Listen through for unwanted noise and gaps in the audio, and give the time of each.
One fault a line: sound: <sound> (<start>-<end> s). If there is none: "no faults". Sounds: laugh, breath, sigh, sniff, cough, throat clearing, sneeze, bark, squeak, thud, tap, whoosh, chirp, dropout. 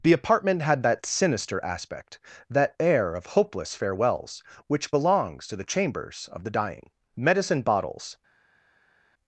no faults